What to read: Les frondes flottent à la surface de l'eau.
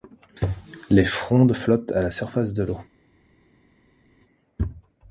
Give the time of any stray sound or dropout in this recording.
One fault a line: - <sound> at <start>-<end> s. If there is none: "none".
none